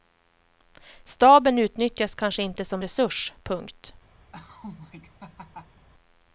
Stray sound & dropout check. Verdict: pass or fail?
fail